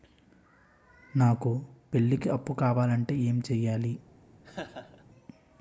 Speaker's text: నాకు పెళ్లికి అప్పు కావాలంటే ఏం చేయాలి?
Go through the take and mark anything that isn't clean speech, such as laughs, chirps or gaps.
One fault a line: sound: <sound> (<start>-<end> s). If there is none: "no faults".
sound: laugh (4.4-5.0 s)